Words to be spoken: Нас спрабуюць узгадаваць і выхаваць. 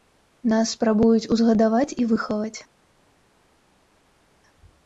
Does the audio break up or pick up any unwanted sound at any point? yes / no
no